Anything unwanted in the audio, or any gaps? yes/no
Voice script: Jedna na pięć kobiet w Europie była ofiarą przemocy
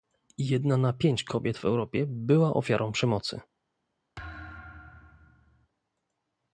yes